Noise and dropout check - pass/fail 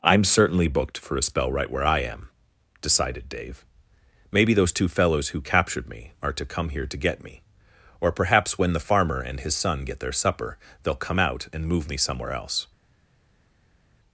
pass